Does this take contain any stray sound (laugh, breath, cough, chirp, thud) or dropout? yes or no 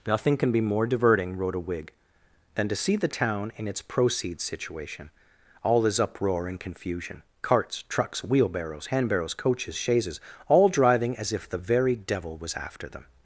no